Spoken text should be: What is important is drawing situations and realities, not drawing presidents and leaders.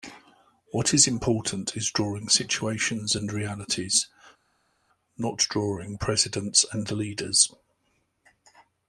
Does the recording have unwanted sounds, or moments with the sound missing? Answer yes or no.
no